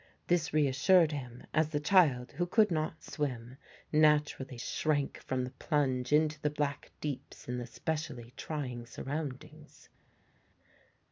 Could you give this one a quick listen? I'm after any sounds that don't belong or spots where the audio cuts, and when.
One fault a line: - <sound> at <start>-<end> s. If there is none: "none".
none